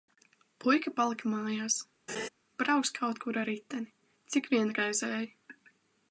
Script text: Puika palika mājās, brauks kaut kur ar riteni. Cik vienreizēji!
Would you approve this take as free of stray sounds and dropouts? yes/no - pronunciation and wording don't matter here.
no